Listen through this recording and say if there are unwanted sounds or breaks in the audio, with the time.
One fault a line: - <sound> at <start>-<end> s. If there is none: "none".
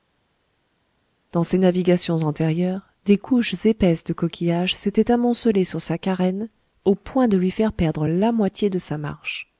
none